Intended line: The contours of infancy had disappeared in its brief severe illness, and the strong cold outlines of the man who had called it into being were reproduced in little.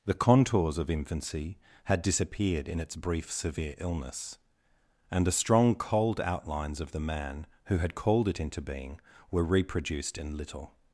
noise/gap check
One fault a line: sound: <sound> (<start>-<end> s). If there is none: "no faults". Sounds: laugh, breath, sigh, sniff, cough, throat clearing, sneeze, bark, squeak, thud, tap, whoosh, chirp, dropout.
no faults